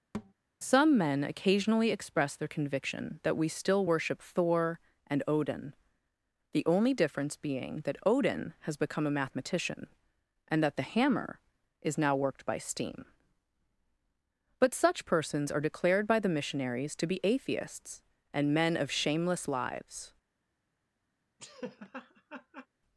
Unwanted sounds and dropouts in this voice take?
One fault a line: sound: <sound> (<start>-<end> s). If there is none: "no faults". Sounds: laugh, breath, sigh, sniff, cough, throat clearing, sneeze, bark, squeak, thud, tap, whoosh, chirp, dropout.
sound: thud (0.1-0.3 s)
sound: laugh (21.4-22.7 s)